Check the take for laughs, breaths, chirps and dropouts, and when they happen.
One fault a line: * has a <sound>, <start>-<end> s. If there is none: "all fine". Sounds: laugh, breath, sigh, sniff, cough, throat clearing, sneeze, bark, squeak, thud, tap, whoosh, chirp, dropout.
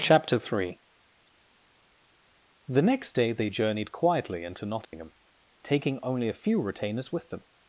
* has a dropout, 4.8-4.9 s